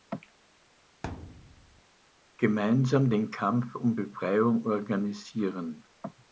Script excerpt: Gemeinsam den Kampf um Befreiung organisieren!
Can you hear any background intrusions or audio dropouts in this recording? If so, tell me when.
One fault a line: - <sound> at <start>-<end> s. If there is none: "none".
- thud at 1.0-1.8 s